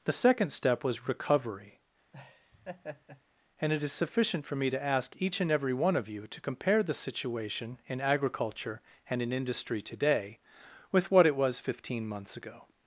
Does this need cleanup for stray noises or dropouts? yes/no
yes